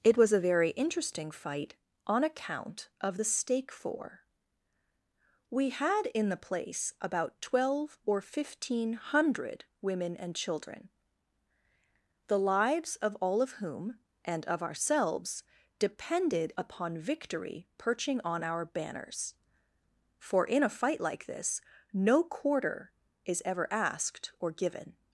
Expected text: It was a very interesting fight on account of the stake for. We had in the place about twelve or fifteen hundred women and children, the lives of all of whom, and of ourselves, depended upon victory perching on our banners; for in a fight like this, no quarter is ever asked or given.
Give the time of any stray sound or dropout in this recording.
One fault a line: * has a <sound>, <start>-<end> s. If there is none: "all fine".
all fine